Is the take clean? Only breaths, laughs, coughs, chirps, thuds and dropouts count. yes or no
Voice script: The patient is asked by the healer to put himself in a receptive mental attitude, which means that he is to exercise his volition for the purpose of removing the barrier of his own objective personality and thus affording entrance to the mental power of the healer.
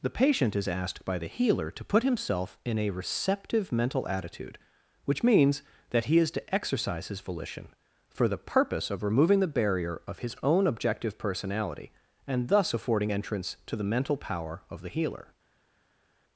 yes